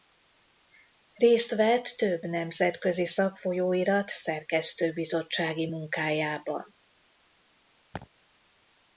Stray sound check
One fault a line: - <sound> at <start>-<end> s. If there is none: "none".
- laugh at 7.9-8.1 s